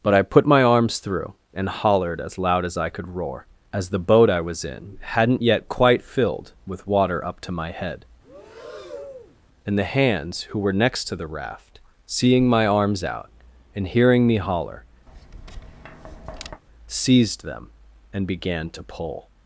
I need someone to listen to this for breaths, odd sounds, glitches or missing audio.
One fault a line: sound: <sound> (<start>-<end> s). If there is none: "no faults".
sound: breath (8.2-9.4 s)
sound: tap (15.1-16.6 s)